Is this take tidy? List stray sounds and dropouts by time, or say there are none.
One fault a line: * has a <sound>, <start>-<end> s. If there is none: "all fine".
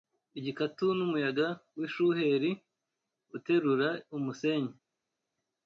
all fine